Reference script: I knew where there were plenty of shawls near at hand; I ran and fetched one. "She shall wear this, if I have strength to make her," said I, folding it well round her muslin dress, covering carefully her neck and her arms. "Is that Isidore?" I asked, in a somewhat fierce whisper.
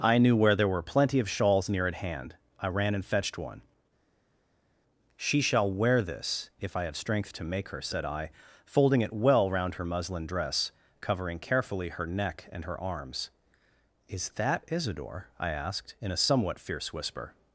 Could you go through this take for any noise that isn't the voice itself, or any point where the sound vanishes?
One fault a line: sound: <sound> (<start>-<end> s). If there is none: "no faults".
no faults